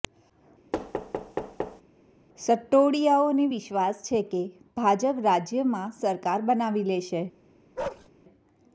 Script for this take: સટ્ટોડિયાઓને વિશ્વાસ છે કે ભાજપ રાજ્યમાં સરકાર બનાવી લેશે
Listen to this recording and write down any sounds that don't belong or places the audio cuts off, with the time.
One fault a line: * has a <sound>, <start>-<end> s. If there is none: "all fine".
* has a thud, 0.7-1.8 s
* has a bark, 7.8-8.1 s